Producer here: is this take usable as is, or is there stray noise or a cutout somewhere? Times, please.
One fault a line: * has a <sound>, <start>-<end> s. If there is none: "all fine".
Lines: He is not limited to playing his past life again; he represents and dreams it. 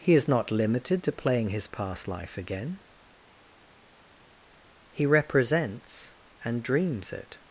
all fine